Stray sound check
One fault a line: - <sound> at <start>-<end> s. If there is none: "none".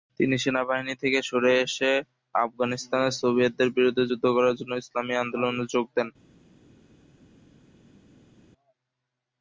none